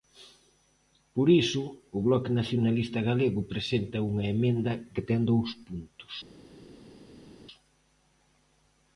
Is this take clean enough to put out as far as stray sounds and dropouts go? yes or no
yes